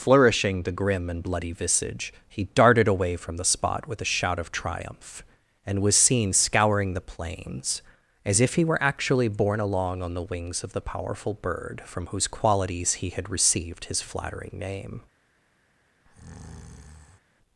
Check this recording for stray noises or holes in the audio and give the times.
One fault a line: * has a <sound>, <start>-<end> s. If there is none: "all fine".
* has a breath, 16.0-17.2 s